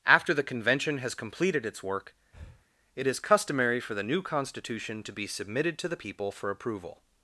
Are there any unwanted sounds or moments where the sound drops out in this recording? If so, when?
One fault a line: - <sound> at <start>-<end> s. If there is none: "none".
- breath at 2.3-2.7 s